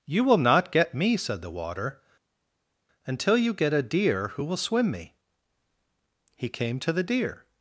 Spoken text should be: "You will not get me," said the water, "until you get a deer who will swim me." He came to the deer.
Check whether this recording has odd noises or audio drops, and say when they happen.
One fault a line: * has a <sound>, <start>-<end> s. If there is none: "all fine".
all fine